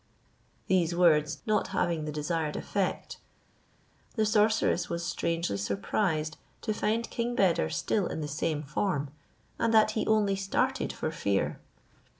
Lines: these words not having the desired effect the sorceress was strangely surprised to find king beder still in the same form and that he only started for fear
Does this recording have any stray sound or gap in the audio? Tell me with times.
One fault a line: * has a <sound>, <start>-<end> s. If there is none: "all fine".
all fine